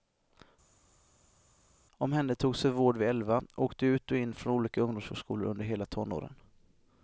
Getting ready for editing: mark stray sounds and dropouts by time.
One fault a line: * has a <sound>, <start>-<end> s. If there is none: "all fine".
all fine